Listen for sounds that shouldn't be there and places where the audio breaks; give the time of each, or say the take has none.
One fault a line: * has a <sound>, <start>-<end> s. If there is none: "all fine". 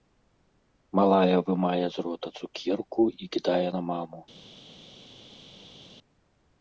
all fine